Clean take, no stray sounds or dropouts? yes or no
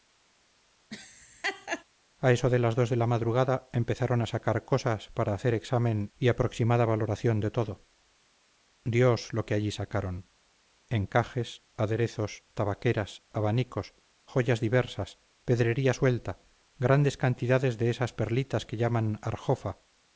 no